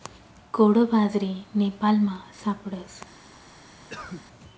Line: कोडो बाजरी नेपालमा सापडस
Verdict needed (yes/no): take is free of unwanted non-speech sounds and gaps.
no